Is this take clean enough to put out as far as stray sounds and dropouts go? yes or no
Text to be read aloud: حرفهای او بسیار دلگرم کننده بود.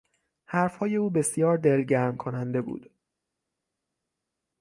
yes